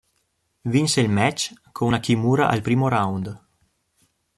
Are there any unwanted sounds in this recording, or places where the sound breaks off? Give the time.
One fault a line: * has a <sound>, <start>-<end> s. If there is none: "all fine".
all fine